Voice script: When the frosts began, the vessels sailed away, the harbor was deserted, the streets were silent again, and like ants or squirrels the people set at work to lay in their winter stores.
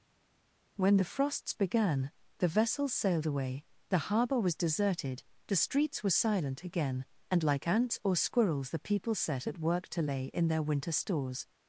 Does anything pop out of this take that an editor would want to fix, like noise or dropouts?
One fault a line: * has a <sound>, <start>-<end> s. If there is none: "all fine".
all fine